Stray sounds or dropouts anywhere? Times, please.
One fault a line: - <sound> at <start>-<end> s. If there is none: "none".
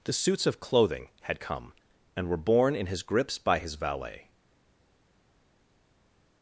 none